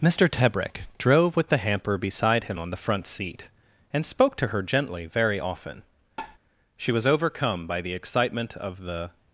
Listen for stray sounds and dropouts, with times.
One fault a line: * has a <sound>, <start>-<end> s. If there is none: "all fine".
* has a tap, 6.2-6.4 s